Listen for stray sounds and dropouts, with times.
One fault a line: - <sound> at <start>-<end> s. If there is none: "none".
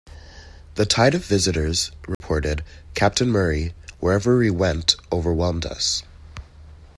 - dropout at 2.1-2.2 s